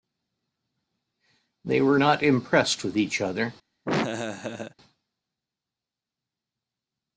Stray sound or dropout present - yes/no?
yes